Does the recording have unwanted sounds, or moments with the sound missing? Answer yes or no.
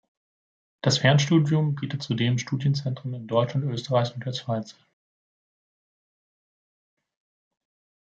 no